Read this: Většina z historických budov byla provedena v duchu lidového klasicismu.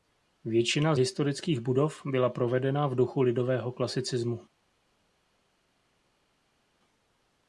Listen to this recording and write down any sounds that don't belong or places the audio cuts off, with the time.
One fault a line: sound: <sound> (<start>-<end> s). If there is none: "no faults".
no faults